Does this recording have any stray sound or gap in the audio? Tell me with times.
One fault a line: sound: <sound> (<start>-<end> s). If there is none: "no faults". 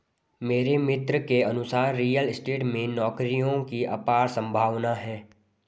no faults